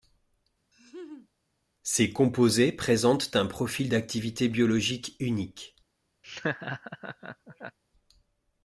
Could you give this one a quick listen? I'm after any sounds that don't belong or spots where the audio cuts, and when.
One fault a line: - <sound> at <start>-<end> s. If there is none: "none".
- laugh at 0.7-1.3 s
- laugh at 6.2-7.8 s